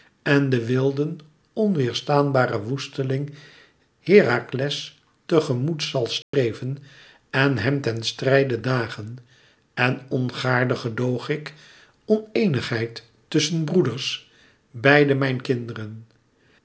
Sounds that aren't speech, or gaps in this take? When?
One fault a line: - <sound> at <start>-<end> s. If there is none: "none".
- dropout at 6.2-6.3 s